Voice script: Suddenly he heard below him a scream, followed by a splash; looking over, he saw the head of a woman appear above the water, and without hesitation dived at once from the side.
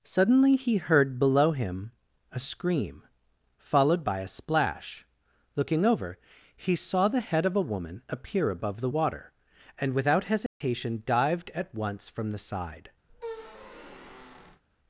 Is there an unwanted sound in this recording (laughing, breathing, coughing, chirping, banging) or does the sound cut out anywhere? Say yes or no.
yes